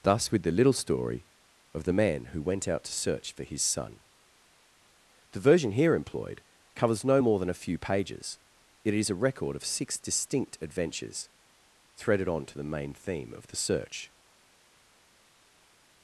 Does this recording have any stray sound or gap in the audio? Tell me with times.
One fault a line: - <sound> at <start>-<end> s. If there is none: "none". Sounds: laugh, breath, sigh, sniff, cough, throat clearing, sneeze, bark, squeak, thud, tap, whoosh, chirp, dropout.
none